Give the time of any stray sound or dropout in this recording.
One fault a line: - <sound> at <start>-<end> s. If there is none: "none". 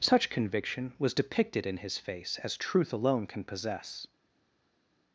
none